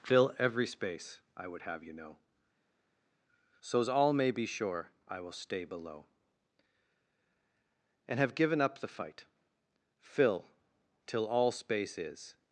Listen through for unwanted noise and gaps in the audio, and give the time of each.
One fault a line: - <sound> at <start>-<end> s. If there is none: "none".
none